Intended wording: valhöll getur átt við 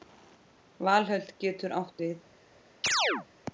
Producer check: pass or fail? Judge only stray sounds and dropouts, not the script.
fail